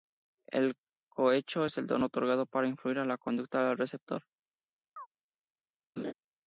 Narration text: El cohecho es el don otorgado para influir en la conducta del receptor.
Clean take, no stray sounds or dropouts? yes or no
no